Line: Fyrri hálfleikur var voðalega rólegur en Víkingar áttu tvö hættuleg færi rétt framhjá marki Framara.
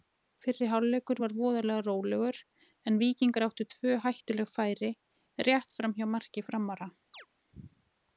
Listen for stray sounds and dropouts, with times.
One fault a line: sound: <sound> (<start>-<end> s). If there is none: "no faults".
sound: chirp (7.1-7.3 s)